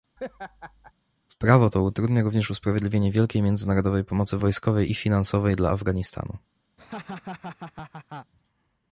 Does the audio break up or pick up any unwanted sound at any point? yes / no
yes